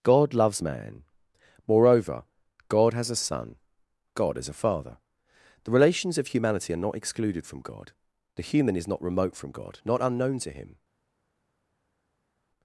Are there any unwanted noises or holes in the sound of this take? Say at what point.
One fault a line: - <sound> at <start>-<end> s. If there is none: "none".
none